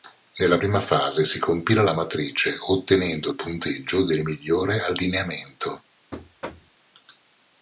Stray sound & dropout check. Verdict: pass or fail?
fail